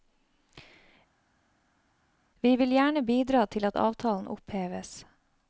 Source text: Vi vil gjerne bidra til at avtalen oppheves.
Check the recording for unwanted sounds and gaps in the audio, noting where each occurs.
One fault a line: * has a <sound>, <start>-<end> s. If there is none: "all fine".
all fine